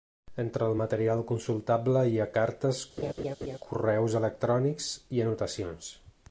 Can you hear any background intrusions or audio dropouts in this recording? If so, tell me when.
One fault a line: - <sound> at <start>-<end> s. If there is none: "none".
- laugh at 3.0-3.6 s